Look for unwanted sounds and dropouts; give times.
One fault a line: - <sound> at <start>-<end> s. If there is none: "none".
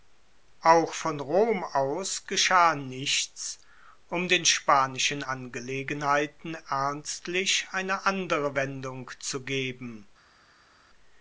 none